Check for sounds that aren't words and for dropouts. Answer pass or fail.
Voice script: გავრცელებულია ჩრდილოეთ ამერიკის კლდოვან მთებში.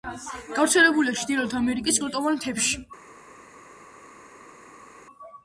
pass